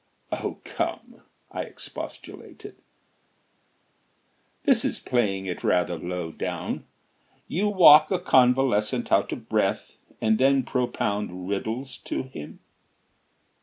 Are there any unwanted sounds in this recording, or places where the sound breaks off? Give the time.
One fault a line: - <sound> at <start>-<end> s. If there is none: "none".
none